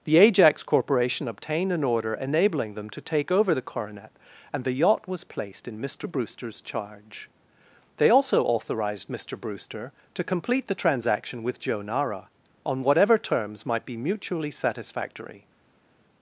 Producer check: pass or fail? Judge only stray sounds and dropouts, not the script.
pass